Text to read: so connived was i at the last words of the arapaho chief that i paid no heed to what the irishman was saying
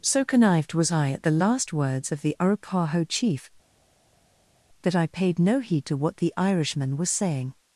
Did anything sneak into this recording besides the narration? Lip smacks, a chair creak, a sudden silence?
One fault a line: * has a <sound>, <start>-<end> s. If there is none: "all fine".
all fine